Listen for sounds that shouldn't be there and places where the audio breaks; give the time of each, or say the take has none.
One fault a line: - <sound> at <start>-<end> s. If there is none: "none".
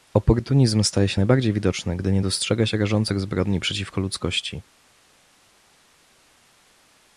none